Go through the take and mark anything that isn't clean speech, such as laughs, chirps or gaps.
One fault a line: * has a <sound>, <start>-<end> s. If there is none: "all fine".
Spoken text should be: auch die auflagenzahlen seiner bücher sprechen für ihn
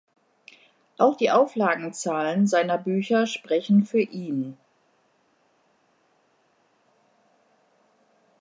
all fine